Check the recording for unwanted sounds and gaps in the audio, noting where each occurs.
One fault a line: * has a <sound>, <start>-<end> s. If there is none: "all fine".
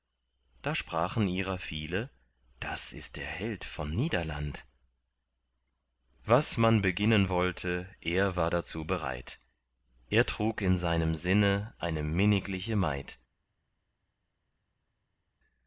all fine